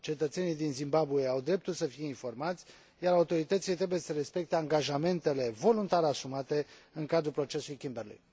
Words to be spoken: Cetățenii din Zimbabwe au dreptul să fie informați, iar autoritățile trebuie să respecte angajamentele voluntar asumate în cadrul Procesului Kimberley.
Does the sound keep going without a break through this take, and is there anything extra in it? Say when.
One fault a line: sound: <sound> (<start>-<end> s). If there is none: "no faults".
no faults